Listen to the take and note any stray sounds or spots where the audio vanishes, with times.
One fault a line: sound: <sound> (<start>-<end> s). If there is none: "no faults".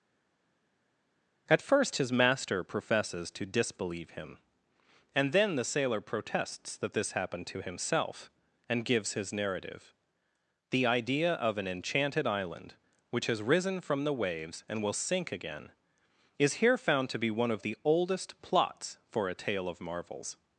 no faults